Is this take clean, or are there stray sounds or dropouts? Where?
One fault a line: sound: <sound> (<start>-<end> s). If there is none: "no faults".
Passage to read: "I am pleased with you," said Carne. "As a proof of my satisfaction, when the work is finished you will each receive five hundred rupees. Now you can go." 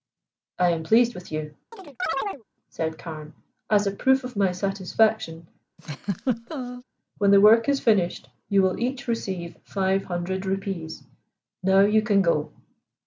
sound: chirp (1.7-2.4 s)
sound: laugh (5.8-6.8 s)